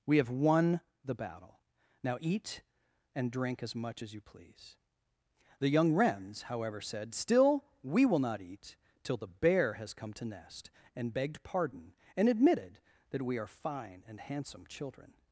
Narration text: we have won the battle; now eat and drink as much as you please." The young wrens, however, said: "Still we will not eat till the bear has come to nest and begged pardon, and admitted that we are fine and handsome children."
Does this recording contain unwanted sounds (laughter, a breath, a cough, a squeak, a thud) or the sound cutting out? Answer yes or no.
no